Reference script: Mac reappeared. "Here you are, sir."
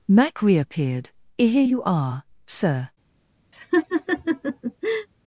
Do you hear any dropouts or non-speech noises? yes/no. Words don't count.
yes